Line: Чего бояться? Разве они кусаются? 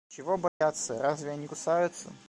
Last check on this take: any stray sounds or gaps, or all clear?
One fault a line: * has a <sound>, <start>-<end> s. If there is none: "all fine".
* has a dropout, 0.5-0.6 s